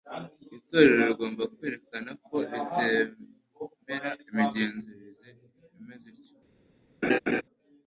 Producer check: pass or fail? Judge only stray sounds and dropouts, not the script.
fail